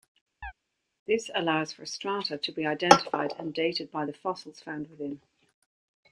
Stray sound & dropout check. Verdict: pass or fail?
fail